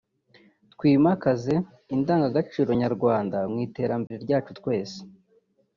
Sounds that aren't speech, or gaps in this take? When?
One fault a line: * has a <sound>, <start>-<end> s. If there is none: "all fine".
* has a dropout, 4.1-4.1 s